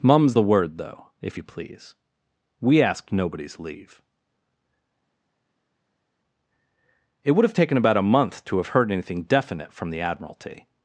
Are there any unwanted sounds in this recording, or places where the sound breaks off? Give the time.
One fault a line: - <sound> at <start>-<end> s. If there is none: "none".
none